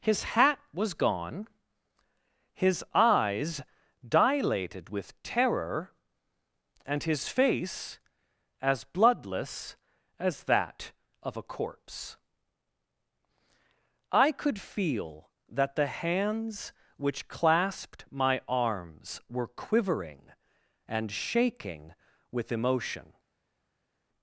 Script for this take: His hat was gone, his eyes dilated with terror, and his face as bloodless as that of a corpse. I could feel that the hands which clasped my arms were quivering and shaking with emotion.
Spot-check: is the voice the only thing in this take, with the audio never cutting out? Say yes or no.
yes